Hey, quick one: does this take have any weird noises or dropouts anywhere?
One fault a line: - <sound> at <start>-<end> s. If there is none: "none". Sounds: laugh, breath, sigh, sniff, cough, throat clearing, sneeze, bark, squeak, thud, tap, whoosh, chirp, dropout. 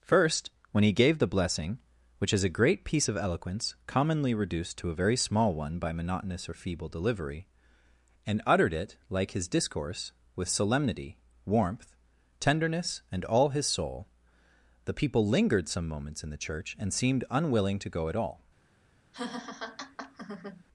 - laugh at 19.1-20.6 s